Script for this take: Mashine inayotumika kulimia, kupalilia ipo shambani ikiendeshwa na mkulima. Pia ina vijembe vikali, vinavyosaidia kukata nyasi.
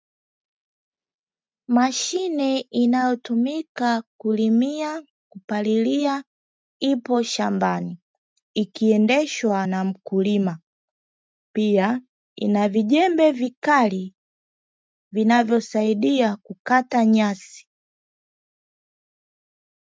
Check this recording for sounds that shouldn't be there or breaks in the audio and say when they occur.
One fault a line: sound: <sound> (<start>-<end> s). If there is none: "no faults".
no faults